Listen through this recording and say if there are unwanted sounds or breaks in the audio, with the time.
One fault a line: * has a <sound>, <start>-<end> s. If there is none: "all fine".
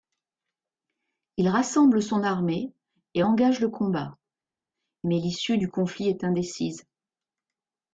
all fine